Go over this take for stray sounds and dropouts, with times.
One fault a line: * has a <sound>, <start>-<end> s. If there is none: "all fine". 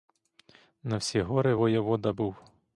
all fine